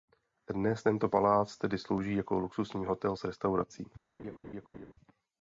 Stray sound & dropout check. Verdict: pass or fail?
fail